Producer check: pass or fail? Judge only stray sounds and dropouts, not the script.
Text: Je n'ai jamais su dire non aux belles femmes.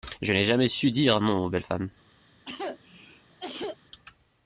fail